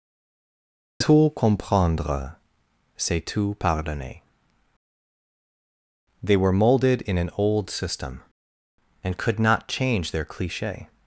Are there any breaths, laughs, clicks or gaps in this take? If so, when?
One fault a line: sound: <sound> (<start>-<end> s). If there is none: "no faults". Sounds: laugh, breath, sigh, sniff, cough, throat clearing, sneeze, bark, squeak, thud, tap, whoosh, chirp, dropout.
no faults